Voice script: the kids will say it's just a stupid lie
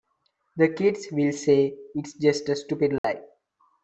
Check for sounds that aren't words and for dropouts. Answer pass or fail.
fail